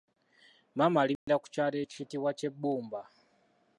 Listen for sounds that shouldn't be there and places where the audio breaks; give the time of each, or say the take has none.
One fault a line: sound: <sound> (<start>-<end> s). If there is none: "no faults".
sound: dropout (1.2-1.3 s)